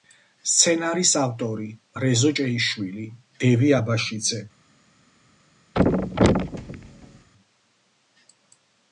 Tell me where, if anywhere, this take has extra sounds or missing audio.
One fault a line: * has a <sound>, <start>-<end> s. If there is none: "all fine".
* has a thud, 5.7-7.3 s